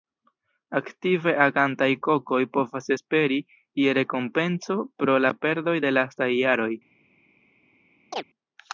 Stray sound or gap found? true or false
true